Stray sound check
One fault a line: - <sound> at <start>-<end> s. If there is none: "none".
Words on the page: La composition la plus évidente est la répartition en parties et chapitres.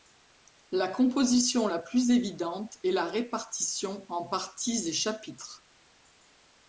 none